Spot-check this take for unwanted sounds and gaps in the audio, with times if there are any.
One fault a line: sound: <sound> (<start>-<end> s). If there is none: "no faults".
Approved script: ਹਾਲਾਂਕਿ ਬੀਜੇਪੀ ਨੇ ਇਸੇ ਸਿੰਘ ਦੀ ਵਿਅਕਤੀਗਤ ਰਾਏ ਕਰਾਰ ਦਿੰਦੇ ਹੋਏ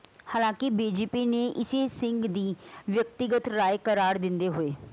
no faults